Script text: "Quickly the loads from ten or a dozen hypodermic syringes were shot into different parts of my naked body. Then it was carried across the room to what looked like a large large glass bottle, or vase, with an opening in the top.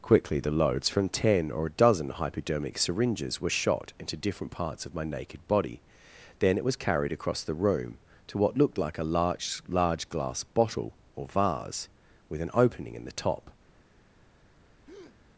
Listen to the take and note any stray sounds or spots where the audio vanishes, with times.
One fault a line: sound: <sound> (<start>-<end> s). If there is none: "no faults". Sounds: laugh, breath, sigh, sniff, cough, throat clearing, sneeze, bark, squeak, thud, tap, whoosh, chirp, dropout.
sound: breath (14.9-15.2 s)